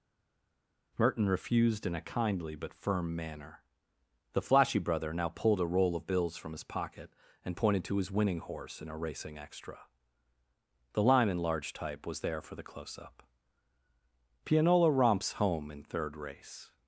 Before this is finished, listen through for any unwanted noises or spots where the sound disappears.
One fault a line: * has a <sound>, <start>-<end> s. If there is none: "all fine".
all fine